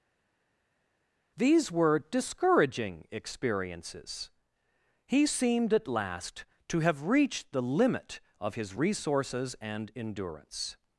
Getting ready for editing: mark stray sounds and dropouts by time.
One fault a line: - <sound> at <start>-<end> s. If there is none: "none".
none